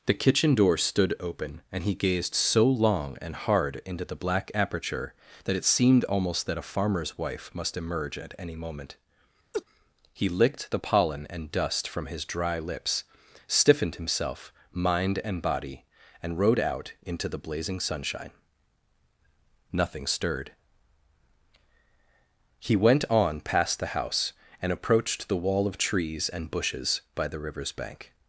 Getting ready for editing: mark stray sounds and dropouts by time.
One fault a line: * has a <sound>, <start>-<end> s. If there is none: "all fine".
* has a laugh, 9.5-9.6 s